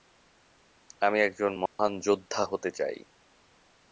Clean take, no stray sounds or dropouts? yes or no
no